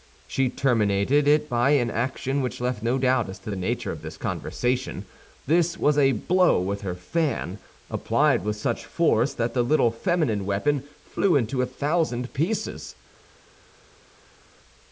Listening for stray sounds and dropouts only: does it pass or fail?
pass